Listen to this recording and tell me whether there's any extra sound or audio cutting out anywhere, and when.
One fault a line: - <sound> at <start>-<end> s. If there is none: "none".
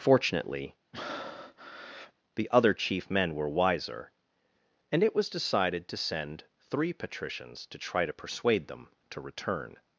- breath at 0.9-2.1 s